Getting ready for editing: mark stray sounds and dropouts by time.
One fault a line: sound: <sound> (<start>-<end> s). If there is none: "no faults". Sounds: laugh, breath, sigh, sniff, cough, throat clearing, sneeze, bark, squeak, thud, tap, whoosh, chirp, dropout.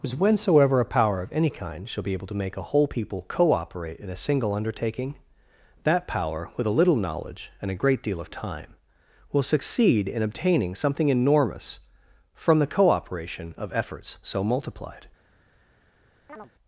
sound: chirp (16.3-16.5 s)